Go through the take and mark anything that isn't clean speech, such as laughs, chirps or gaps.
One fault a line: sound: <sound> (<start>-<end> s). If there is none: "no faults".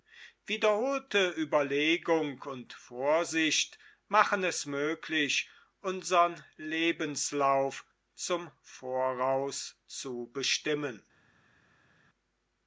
no faults